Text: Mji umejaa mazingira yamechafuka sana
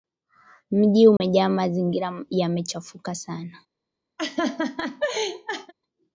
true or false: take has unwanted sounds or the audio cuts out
true